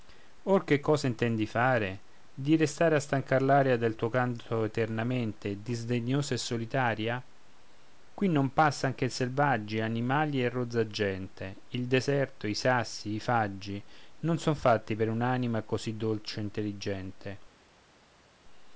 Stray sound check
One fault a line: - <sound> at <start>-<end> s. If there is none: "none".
none